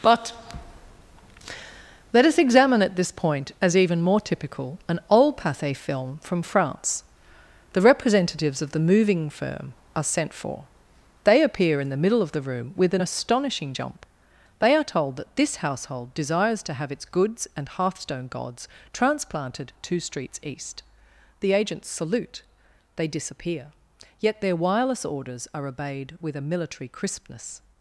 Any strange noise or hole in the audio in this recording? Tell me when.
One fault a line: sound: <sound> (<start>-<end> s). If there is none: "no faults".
no faults